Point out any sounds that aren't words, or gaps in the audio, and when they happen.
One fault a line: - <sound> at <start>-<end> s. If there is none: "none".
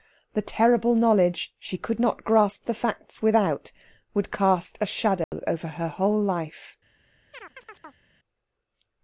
- dropout at 5.2-5.3 s
- chirp at 7.3-8.1 s